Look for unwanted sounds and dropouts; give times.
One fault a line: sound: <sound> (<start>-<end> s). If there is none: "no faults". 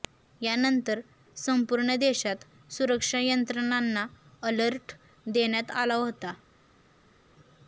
no faults